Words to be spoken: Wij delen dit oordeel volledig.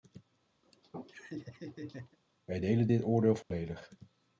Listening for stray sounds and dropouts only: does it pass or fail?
fail